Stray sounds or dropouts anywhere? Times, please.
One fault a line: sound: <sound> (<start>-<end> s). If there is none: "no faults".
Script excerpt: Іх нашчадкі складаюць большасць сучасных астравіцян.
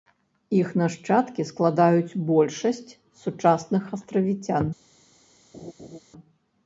sound: laugh (5.5-6.0 s)